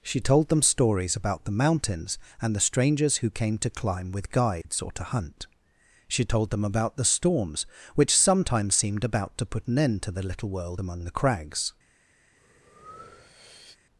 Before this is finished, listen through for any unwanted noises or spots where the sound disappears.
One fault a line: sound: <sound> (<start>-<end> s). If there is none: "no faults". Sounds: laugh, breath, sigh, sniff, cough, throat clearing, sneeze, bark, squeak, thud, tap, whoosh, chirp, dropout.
sound: dropout (4.6-4.6 s)
sound: breath (12.4-13.8 s)